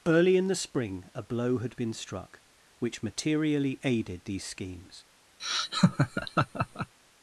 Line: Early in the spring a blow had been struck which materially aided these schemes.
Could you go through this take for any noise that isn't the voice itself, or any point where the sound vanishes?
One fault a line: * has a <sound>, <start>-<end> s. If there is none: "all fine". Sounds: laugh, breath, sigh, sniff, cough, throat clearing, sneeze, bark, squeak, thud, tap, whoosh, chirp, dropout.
* has a laugh, 5.4-6.9 s